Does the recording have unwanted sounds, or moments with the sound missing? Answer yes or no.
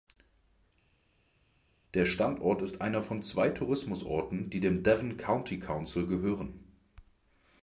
no